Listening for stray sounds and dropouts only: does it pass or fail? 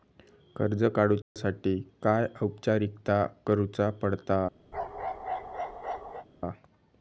fail